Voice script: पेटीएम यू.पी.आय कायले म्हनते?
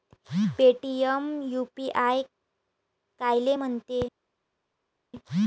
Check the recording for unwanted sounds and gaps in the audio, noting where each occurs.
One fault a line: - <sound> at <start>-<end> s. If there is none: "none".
none